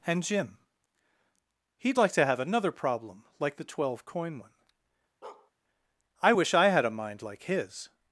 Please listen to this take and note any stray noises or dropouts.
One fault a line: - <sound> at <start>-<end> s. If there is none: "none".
- bark at 5.2-5.5 s